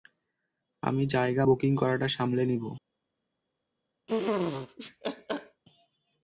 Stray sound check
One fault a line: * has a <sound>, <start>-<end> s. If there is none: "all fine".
* has a laugh, 4.1-5.6 s